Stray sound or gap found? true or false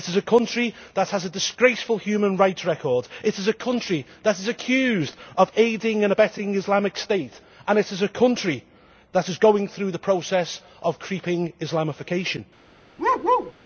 true